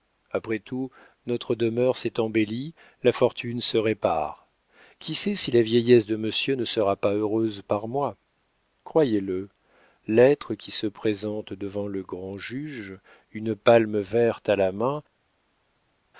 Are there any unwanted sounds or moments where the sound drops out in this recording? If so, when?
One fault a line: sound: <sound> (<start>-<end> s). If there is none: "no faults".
no faults